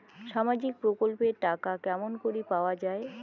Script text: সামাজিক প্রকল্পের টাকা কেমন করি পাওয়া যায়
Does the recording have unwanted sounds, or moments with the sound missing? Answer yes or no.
no